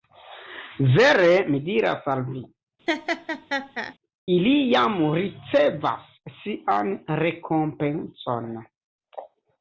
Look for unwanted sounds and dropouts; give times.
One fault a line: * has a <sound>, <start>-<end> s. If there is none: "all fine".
* has a laugh, 2.9-3.9 s